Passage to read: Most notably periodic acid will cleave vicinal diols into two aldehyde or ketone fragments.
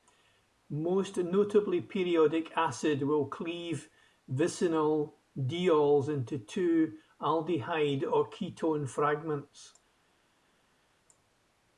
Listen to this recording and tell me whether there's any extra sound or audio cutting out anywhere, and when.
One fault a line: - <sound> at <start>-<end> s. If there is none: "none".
none